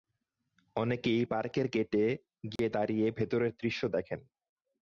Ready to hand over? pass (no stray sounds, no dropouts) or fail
fail